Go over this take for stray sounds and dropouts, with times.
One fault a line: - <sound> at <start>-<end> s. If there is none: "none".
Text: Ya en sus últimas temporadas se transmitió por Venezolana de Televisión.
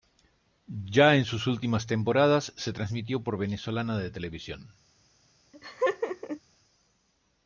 - laugh at 5.5-6.4 s